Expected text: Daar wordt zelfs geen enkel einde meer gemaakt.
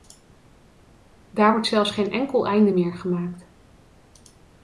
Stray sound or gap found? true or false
false